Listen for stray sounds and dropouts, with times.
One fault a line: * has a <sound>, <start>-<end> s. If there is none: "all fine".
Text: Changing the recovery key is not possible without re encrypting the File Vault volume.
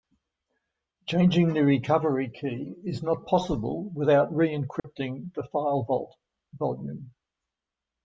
* has a dropout, 4.8-4.8 s